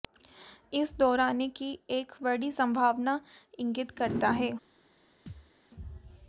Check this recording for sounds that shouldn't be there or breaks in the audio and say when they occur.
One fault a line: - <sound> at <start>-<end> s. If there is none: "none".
- thud at 5.3-5.5 s